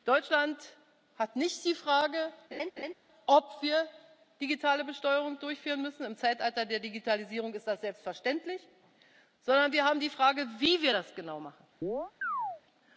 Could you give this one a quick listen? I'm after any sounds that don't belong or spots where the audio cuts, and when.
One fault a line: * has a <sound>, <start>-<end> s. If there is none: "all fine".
* has a laugh, 2.5-2.9 s
* has a chirp, 11.8-12.6 s